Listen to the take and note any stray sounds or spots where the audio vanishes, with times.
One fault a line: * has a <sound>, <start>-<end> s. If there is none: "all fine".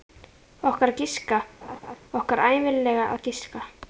* has a laugh, 1.6-2.0 s